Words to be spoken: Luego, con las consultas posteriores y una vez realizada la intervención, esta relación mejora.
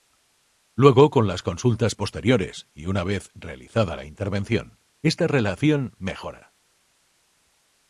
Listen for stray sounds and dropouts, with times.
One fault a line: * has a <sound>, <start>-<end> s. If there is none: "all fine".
all fine